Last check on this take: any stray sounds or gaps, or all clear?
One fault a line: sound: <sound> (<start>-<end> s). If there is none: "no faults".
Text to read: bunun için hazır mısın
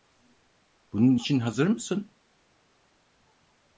no faults